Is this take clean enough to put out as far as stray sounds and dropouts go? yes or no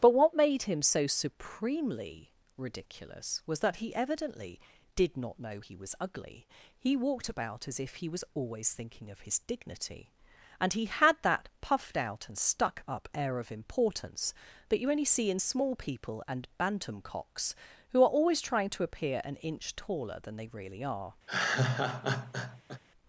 no